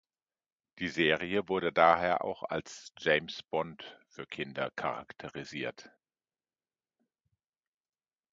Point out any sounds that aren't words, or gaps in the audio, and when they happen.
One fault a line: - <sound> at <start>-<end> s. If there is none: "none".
none